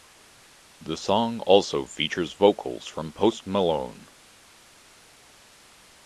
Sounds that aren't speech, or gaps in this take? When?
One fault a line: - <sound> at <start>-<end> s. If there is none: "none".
none